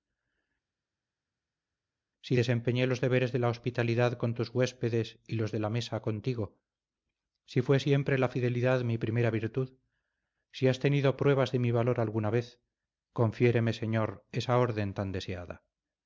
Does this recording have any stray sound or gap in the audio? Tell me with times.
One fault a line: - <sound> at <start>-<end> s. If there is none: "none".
none